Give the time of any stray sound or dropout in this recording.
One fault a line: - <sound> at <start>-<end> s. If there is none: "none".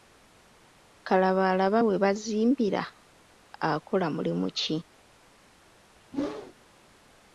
- whoosh at 6.1-6.5 s